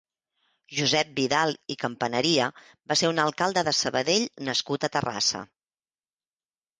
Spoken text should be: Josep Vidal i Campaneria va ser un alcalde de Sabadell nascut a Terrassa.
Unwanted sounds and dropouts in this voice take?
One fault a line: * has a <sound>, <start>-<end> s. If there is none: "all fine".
all fine